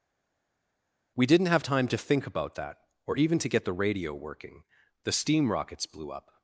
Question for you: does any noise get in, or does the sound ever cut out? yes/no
no